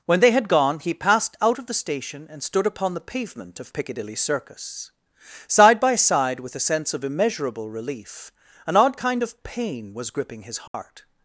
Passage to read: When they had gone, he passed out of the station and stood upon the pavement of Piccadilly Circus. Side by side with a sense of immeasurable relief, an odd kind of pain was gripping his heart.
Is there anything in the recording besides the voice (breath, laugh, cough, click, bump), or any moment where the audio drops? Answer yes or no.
yes